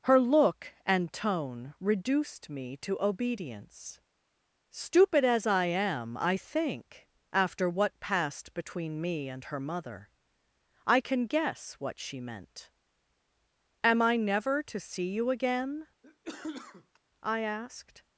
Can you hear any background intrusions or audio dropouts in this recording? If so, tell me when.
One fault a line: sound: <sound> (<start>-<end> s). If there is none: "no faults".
sound: cough (16.0-17.0 s)